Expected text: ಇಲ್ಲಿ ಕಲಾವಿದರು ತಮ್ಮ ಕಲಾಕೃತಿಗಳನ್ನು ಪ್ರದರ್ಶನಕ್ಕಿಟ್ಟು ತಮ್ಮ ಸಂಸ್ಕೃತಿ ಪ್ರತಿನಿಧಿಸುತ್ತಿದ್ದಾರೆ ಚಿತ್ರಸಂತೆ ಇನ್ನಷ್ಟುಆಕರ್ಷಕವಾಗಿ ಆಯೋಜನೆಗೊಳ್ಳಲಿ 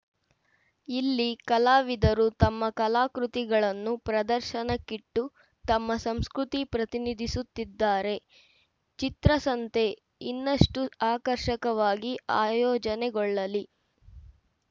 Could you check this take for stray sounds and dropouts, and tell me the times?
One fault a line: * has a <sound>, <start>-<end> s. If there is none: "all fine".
all fine